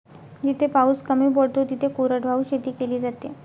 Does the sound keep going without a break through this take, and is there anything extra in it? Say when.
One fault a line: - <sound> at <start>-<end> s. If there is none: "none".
none